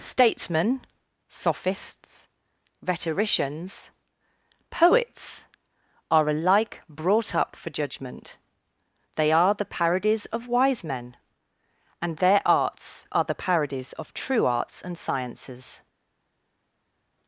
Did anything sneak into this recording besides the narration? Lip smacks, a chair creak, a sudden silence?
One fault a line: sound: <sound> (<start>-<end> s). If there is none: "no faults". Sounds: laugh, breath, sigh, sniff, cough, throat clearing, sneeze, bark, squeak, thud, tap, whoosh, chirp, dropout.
no faults